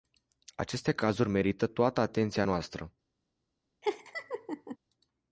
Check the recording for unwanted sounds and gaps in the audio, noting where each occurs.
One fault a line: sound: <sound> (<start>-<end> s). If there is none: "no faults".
sound: laugh (3.8-4.8 s)